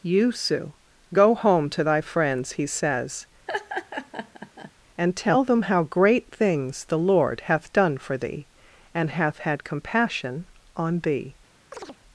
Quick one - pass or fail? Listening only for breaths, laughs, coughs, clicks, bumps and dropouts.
fail